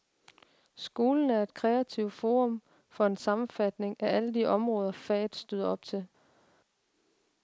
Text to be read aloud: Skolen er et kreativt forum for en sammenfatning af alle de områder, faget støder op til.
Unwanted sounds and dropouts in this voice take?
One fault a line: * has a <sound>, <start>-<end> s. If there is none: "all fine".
all fine